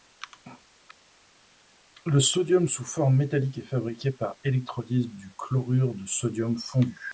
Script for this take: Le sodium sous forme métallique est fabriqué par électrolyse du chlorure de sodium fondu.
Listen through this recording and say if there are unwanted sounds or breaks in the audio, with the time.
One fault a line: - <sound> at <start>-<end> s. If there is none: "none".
none